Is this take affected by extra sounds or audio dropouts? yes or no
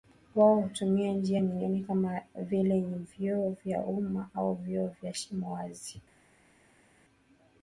no